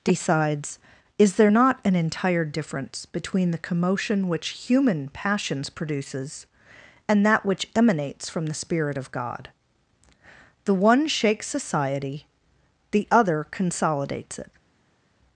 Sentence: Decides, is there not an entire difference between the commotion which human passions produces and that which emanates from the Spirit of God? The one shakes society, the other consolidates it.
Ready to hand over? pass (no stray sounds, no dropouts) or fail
pass